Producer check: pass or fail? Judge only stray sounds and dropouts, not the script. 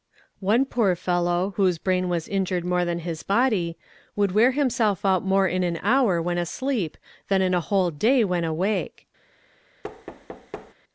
fail